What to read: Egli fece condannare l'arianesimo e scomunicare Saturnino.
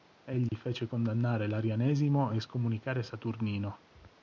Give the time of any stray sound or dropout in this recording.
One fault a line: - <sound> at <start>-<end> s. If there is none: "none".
- dropout at 0.5-0.5 s